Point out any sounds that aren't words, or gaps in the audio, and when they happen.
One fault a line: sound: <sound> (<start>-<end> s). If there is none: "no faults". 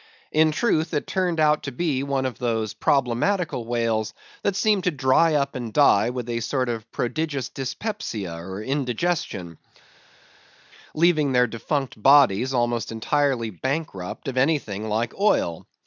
no faults